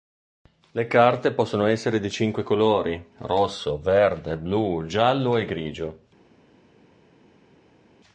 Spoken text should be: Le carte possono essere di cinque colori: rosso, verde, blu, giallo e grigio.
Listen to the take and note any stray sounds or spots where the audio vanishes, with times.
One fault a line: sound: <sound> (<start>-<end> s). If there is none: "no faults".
no faults